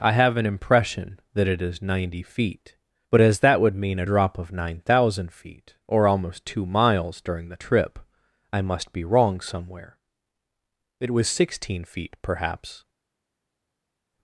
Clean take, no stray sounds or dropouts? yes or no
yes